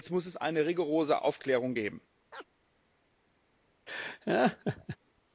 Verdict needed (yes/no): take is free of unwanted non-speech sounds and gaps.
no